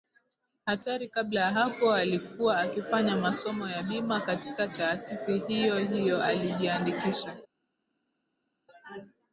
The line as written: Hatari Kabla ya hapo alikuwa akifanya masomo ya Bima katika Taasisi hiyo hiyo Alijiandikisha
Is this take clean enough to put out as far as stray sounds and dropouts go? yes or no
yes